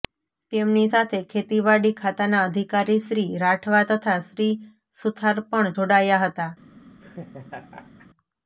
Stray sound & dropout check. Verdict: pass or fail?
fail